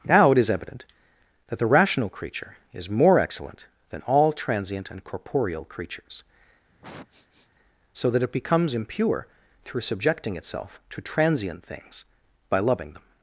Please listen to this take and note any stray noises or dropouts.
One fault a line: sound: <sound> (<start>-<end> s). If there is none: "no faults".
sound: sniff (6.7-7.5 s)